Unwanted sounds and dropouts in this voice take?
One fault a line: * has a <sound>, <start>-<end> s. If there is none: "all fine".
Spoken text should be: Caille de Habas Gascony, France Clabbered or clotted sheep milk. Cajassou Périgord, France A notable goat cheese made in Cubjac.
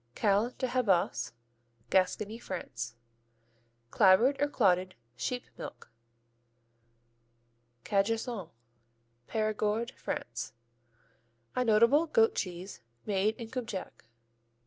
all fine